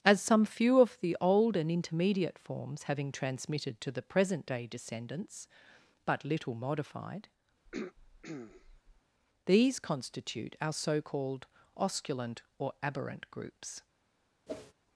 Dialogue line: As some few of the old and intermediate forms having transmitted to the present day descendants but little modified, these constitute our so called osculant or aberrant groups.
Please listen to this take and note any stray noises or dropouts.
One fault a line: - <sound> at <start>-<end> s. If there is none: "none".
- throat clearing at 7.7-9.0 s
- whoosh at 14.5-14.7 s